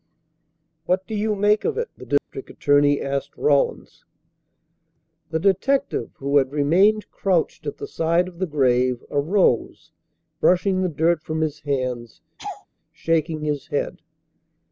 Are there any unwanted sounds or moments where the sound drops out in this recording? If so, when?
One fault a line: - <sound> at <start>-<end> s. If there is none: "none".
- dropout at 2.2-2.3 s
- laugh at 12.4-12.7 s